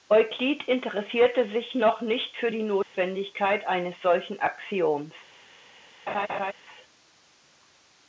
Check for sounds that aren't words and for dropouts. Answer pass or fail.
fail